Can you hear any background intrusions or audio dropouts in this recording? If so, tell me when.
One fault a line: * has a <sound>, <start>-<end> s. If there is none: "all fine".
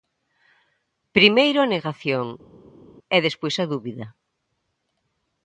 all fine